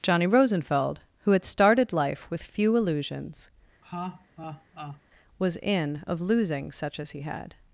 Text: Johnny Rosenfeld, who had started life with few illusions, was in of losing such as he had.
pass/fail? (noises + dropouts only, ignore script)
fail